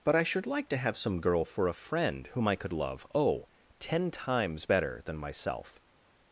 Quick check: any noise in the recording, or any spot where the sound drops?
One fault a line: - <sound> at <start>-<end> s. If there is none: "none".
none